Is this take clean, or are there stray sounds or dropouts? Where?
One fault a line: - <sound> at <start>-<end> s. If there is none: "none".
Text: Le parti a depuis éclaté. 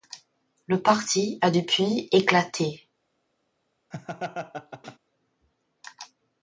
- laugh at 3.9-5.0 s